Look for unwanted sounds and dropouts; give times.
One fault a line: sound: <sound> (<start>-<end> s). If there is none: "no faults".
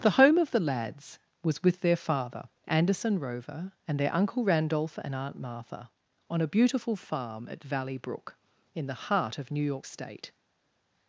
no faults